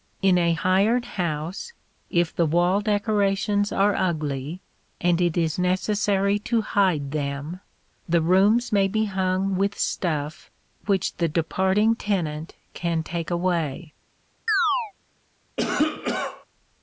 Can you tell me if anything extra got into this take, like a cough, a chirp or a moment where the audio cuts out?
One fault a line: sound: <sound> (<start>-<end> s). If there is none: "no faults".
sound: chirp (14.5-14.9 s)
sound: cough (15.6-16.5 s)